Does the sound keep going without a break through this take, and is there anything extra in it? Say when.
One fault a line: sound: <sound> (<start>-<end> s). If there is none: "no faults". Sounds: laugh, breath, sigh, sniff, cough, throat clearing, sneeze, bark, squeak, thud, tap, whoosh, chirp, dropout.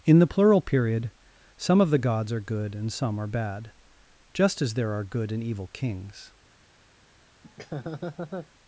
sound: laugh (7.4-8.5 s)